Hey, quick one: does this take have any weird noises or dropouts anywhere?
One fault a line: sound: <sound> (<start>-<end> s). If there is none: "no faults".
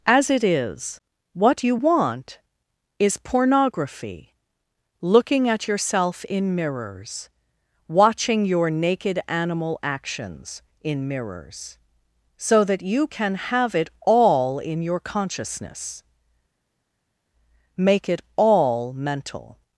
no faults